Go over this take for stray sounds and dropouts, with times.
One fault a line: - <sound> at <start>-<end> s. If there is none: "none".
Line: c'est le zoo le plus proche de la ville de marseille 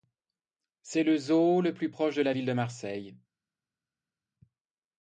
none